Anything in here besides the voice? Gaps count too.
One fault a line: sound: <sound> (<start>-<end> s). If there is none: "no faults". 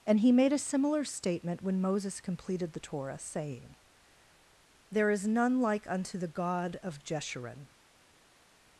no faults